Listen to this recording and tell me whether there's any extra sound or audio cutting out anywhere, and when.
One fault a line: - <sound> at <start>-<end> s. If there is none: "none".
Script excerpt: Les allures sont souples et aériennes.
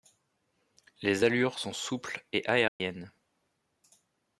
- dropout at 2.7-2.8 s